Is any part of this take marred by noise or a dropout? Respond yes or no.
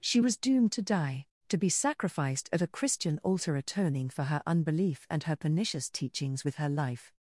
no